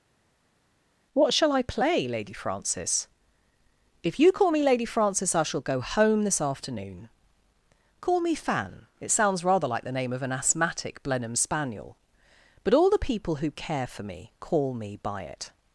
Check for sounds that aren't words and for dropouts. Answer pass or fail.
pass